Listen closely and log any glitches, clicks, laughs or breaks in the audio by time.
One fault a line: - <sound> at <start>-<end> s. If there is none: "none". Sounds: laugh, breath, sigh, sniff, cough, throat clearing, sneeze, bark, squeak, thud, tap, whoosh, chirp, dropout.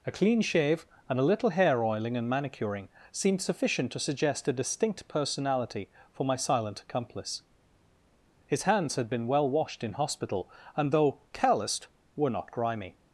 none